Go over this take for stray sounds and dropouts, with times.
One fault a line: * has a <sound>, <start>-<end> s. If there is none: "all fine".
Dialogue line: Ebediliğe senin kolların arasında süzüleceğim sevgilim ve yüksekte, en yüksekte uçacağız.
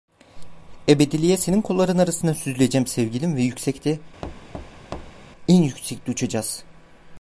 * has a thud, 4.2-5.3 s